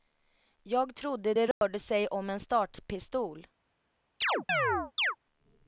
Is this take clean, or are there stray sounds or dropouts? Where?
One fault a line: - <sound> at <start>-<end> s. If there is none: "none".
- dropout at 1.5-1.6 s
- chirp at 4.2-5.2 s